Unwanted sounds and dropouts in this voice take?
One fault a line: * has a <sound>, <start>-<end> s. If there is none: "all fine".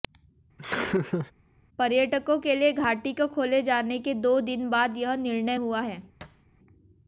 * has a laugh, 0.6-1.3 s
* has a thud, 6.2-6.5 s